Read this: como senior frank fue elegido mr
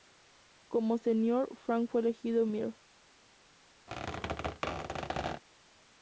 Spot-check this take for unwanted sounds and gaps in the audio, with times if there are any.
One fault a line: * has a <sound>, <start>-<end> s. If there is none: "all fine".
* has a squeak, 3.9-5.4 s